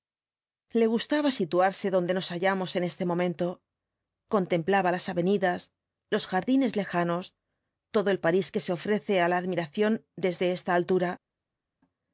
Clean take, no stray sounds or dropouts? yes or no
yes